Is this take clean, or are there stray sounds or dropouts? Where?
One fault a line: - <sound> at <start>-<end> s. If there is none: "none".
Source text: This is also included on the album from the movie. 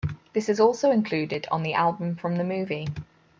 none